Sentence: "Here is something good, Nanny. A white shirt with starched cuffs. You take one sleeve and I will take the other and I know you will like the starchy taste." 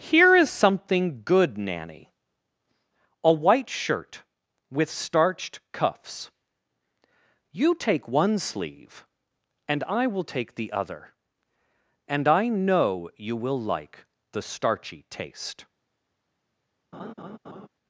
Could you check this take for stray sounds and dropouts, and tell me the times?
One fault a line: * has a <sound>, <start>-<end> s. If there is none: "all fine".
* has a laugh, 16.9-17.7 s